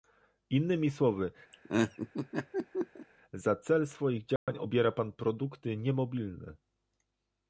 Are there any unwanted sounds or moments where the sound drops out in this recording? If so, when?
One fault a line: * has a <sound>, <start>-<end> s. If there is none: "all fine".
* has a laugh, 1.5-3.1 s
* has a dropout, 4.4-4.5 s